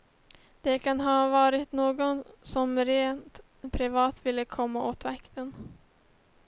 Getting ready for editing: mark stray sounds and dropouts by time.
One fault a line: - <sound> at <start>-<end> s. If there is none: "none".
none